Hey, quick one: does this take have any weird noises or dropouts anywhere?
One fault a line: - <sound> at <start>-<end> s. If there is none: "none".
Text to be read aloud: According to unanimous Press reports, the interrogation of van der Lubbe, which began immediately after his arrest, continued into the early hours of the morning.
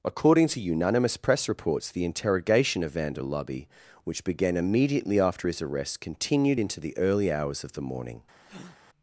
- breath at 8.4-8.8 s